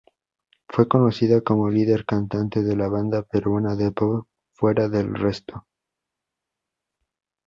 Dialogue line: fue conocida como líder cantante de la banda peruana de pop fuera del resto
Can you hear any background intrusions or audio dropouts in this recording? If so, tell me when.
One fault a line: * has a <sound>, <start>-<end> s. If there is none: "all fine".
all fine